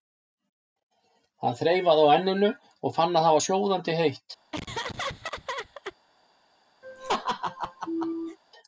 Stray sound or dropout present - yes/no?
yes